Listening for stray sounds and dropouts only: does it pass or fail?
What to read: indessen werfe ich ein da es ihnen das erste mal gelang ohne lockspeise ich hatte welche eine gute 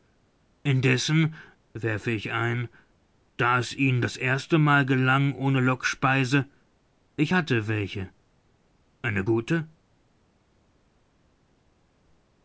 pass